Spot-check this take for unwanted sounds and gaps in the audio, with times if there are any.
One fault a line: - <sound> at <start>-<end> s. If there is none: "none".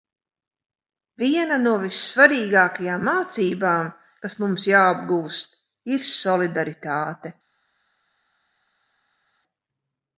none